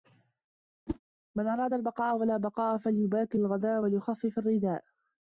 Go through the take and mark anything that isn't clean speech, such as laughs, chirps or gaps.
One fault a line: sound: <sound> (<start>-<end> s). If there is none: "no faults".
sound: whoosh (0.9-1.0 s)